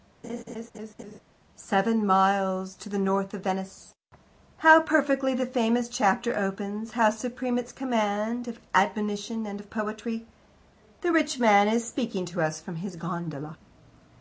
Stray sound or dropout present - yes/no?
yes